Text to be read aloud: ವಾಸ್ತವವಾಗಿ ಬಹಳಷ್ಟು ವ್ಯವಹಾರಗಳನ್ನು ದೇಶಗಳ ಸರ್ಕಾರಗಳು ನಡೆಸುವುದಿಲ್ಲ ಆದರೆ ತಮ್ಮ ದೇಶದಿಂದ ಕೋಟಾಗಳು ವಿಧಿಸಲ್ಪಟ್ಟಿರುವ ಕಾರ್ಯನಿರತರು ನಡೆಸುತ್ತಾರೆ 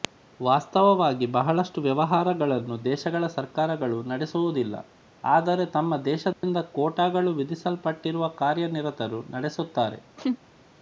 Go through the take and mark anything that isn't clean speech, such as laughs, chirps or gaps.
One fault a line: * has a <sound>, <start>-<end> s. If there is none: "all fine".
* has a dropout, 6.3-6.4 s
* has a laugh, 10.2-10.4 s